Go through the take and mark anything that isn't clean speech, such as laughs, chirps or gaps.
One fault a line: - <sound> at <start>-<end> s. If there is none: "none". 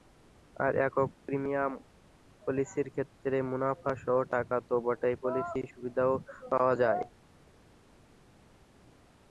none